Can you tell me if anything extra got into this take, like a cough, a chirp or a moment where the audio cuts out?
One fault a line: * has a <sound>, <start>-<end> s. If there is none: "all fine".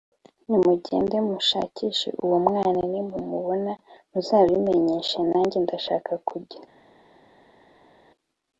all fine